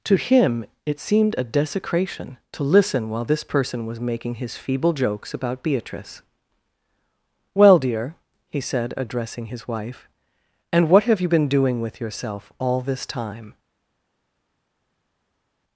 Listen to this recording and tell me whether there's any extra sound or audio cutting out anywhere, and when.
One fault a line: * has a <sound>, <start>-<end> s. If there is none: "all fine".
all fine